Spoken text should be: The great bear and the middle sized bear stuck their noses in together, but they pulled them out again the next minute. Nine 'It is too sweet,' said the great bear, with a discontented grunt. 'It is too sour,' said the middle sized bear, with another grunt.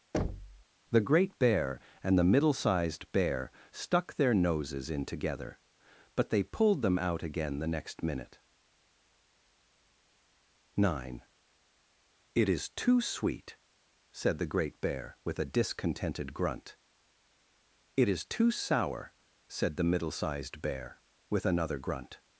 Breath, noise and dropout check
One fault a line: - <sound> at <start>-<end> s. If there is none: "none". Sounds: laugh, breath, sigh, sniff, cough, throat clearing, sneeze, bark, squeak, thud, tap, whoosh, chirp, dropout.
- thud at 0.1-0.6 s